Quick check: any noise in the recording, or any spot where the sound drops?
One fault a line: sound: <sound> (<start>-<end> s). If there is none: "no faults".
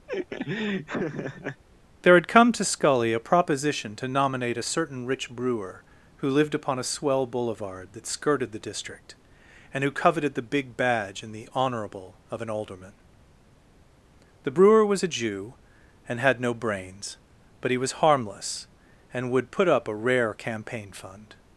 sound: laugh (0.1-1.6 s)